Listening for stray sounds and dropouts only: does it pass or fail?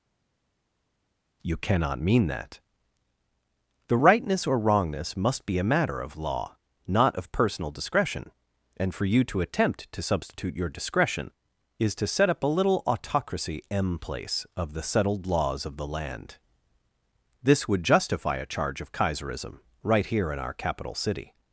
pass